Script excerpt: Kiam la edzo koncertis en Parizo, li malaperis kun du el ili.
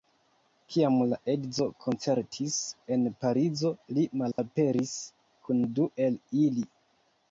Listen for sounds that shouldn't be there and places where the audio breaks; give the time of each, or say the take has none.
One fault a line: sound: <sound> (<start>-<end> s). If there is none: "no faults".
sound: dropout (4.3-4.4 s)